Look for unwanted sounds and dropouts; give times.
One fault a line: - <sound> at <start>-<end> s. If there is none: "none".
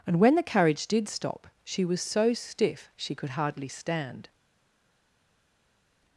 none